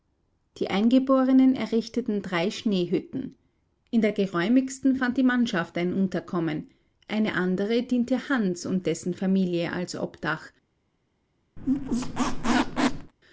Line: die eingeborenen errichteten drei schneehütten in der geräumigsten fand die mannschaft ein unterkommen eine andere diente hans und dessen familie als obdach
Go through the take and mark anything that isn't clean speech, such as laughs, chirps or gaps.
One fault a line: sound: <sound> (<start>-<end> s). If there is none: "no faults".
sound: squeak (11.6-13.1 s)